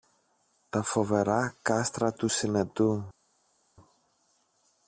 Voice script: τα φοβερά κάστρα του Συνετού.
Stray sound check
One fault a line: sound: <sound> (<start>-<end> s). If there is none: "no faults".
no faults